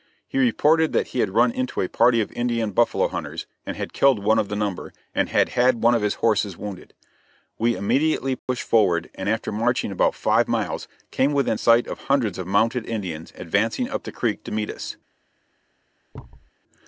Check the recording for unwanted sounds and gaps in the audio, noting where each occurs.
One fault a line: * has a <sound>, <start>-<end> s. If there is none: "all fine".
* has a dropout, 8.4-8.5 s
* has a thud, 16.1-16.5 s